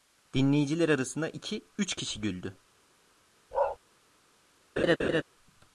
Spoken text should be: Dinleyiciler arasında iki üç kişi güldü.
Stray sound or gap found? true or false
true